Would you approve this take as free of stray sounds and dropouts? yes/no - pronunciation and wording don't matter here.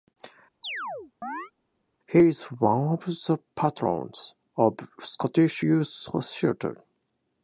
no